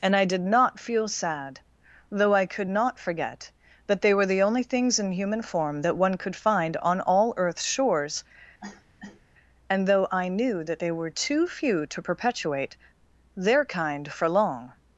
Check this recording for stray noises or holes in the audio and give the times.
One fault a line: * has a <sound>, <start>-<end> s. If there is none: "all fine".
* has a cough, 8.6-9.2 s